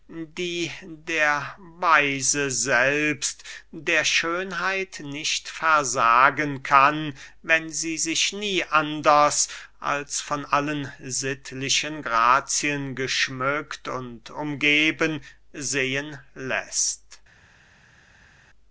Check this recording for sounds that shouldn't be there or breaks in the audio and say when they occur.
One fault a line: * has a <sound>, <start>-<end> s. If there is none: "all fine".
all fine